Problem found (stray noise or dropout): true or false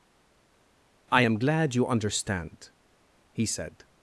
false